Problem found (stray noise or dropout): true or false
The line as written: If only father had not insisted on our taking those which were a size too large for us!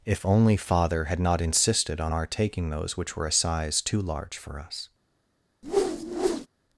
true